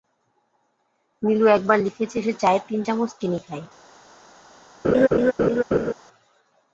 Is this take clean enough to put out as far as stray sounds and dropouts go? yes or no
no